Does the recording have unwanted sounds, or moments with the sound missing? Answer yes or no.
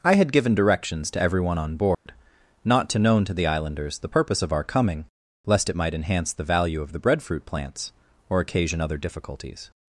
yes